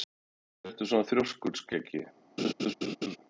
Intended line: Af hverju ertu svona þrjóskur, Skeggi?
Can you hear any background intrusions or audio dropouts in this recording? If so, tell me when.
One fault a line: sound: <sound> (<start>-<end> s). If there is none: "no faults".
sound: laugh (2.4-3.2 s)